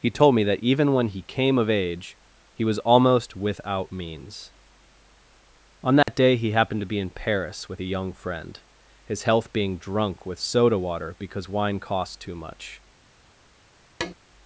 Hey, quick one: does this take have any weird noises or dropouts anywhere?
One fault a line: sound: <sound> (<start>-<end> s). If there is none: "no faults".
sound: dropout (6.0-6.1 s)
sound: tap (14.0-14.1 s)